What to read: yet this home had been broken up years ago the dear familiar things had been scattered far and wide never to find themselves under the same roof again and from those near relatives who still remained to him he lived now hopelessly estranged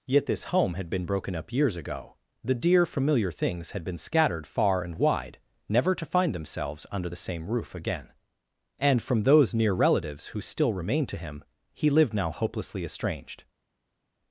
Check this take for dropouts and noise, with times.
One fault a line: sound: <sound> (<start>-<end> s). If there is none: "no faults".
no faults